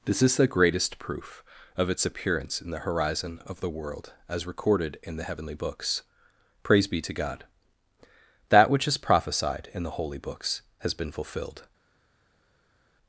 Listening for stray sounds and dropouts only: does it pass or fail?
pass